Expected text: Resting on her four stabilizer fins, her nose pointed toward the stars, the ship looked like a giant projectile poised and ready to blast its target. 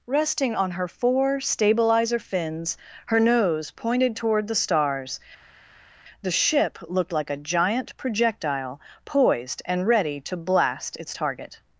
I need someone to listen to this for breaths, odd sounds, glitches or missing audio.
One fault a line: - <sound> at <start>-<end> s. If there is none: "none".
none